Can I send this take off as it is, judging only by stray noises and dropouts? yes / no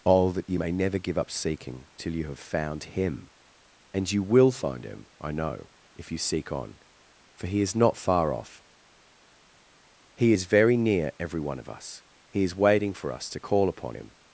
yes